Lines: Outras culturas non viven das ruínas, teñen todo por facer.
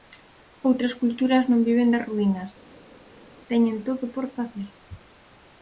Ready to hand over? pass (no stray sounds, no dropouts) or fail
pass